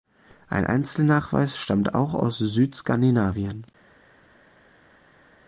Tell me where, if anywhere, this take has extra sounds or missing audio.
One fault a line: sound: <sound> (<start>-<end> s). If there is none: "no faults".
no faults